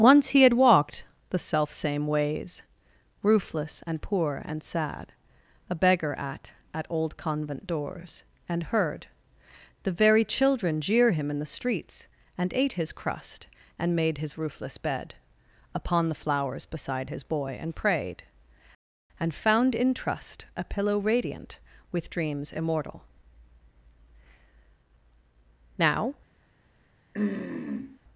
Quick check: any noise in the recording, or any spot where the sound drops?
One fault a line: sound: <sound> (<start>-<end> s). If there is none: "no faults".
sound: throat clearing (27.1-28.0 s)